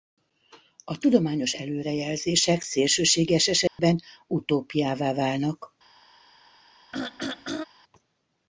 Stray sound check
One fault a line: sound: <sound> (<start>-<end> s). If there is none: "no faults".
sound: dropout (3.7-3.8 s)
sound: throat clearing (6.9-7.6 s)